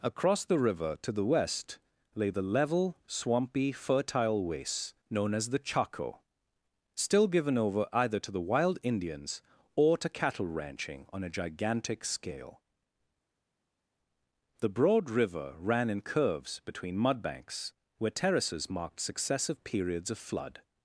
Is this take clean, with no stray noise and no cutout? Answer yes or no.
yes